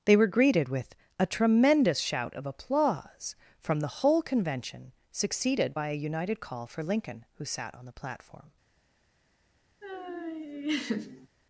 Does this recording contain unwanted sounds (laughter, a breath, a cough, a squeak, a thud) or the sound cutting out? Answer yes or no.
yes